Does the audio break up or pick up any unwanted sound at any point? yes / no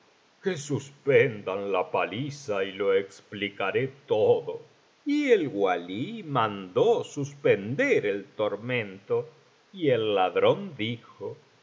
no